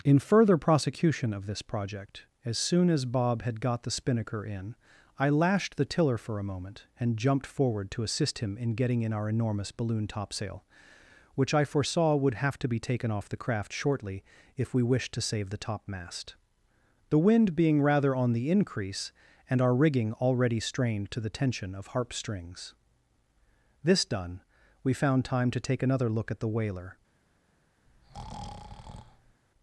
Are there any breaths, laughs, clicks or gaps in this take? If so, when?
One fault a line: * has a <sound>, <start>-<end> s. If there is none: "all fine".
* has a breath, 27.9-29.4 s